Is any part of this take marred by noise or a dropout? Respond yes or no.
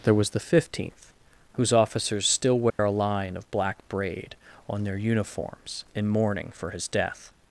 yes